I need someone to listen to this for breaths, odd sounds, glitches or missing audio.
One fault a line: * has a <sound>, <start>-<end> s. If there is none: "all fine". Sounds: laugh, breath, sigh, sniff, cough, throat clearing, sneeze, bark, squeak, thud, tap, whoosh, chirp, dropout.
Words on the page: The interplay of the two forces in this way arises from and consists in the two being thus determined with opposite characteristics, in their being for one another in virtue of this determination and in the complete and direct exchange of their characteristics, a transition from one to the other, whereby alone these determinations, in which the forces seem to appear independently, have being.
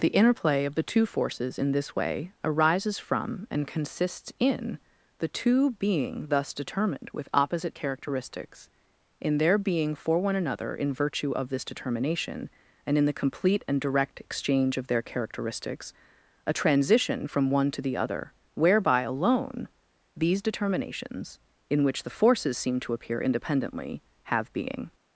all fine